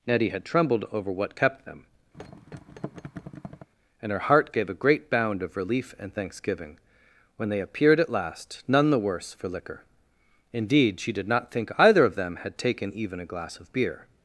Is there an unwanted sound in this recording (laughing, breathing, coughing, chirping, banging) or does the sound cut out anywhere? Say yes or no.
yes